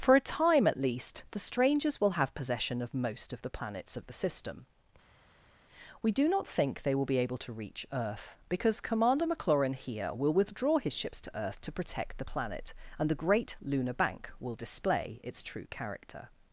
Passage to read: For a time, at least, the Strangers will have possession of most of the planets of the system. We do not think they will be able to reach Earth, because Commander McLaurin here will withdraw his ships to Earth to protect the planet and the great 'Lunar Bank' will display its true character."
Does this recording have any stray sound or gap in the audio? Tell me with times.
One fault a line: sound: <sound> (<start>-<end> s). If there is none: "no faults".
no faults